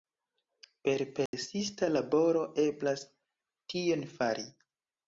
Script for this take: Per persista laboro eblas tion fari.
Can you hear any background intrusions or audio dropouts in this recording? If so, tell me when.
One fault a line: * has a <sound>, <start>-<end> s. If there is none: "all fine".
* has a dropout, 1.3-1.3 s